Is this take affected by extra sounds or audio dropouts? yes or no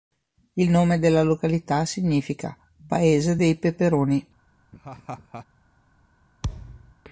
yes